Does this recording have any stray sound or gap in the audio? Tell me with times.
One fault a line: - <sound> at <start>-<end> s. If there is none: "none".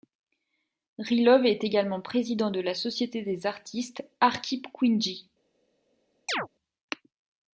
- chirp at 6.3-6.5 s